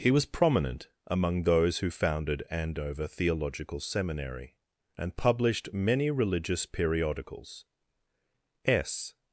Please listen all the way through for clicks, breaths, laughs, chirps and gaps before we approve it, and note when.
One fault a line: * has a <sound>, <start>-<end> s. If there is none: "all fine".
all fine